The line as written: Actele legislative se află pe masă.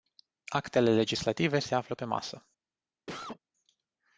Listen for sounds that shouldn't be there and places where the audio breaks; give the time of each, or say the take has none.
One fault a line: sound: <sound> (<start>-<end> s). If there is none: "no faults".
sound: cough (3.1-3.4 s)